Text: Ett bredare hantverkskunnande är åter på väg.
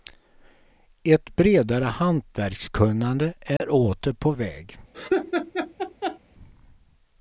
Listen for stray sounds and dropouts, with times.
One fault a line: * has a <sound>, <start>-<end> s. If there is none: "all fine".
* has a dropout, 3.6-3.6 s
* has a laugh, 4.9-6.2 s